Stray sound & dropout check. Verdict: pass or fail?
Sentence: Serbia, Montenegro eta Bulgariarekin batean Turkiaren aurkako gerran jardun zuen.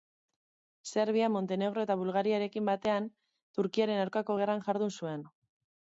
pass